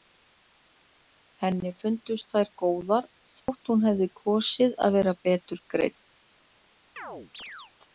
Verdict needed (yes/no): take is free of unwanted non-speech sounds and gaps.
no